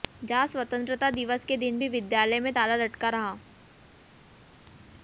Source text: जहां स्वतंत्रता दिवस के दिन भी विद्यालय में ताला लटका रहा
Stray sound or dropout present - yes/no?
no